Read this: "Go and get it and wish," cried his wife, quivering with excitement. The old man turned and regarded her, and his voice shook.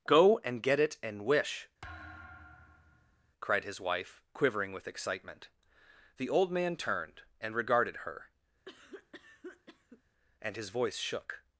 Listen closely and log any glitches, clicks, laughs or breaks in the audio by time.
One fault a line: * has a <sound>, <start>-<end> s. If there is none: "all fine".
* has a thud, 1.8-3.3 s
* has a cough, 8.7-10.0 s